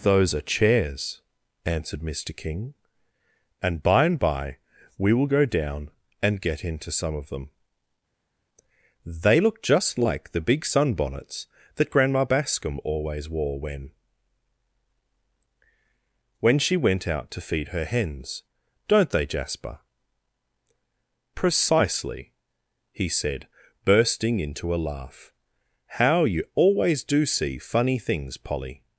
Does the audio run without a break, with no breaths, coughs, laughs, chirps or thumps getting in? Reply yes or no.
yes